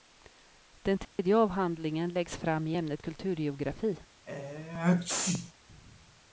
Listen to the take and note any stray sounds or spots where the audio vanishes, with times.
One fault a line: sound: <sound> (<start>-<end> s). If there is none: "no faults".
sound: dropout (1.0-1.2 s)
sound: sneeze (4.3-5.5 s)